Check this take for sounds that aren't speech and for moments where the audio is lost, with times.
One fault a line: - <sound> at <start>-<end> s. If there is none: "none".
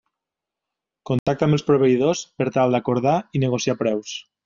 - dropout at 1.2-1.3 s